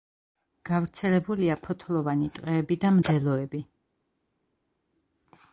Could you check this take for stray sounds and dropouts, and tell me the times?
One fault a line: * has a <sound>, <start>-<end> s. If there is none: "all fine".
all fine